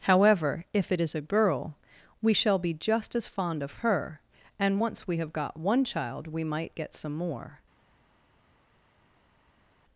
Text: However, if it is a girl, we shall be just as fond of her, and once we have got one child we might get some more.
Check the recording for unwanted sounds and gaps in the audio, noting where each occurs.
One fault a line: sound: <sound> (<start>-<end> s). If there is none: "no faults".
no faults